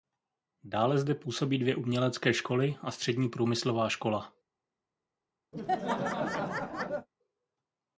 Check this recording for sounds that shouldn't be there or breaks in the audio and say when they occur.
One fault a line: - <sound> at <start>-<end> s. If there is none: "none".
- laugh at 5.5-7.1 s